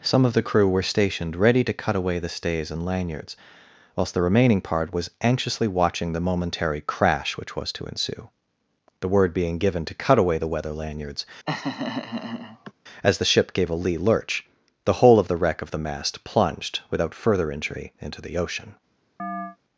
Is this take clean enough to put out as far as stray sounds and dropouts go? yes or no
no